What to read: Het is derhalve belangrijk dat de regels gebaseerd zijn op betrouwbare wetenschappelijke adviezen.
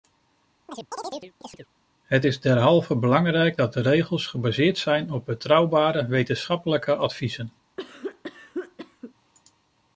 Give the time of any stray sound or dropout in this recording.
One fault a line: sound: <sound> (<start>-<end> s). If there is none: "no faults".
sound: chirp (0.7-1.7 s)
sound: cough (7.8-9.1 s)